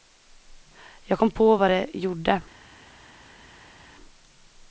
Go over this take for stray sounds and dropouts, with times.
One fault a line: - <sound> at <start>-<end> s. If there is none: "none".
none